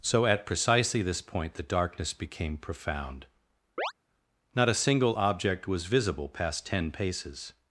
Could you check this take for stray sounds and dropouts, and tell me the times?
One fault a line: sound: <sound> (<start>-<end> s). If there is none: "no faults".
sound: chirp (3.8-3.9 s)